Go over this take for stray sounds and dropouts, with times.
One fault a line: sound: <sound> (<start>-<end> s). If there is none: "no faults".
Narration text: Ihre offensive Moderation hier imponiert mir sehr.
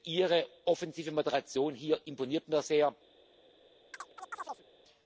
sound: chirp (3.9-4.7 s)